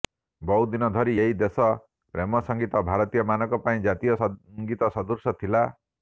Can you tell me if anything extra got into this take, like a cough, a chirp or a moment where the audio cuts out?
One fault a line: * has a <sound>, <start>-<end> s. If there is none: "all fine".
all fine